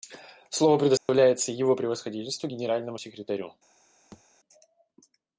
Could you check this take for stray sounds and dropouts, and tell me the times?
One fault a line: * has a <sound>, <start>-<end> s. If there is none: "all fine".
* has a dropout, 1.0-1.1 s
* has a thud, 4.1-4.2 s